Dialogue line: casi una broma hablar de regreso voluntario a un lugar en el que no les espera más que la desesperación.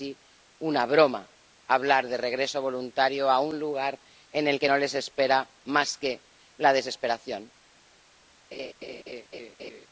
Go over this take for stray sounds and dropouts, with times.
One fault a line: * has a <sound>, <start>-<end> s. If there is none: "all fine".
* has a laugh, 8.5-9.9 s